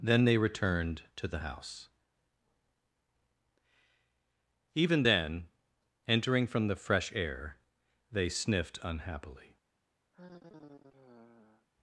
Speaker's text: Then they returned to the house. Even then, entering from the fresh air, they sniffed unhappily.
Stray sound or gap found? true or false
true